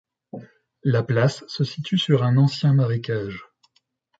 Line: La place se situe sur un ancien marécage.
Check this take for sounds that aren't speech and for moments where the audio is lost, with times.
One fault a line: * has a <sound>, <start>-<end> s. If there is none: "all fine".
all fine